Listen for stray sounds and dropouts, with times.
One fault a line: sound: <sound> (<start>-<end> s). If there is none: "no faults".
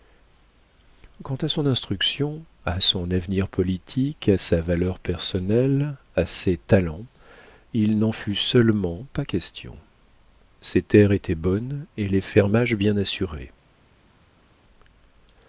no faults